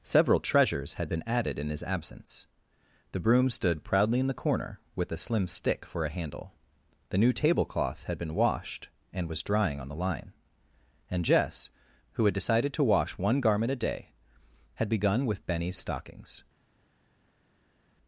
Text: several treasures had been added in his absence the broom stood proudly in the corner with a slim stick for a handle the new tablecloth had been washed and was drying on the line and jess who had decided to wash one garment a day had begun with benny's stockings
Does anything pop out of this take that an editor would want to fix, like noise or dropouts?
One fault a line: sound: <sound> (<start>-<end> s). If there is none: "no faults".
no faults